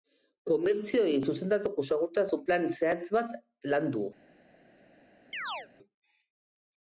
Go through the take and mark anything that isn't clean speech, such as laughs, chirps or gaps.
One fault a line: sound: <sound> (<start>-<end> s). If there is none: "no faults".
sound: chirp (5.3-5.7 s)